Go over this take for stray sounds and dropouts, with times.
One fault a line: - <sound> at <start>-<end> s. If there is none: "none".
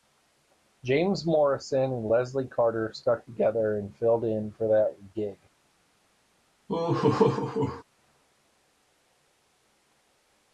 - laugh at 6.7-7.8 s